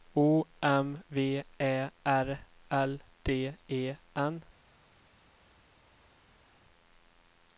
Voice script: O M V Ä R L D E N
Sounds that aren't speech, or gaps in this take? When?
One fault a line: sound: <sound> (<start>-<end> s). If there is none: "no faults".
no faults